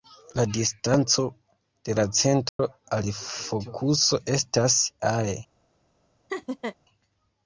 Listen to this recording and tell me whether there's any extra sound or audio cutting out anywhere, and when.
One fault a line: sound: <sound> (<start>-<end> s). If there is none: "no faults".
sound: dropout (2.5-2.6 s)
sound: laugh (6.3-6.8 s)